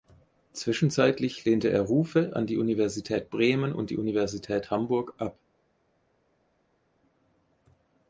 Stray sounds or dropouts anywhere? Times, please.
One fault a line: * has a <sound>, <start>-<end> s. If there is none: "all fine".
all fine